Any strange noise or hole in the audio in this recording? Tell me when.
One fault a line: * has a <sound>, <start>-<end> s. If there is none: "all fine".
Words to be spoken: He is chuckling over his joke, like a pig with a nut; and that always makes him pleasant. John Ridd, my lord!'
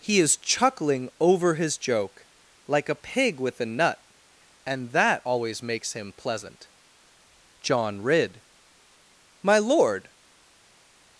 all fine